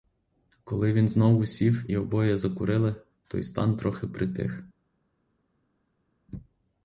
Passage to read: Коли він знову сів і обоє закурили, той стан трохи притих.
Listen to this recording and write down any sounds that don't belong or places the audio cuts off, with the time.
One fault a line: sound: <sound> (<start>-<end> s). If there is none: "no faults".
no faults